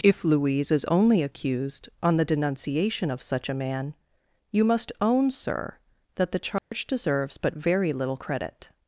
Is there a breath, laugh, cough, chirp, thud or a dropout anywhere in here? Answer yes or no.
yes